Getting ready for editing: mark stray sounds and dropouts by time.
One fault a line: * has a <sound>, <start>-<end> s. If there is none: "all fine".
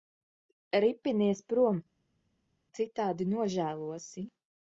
all fine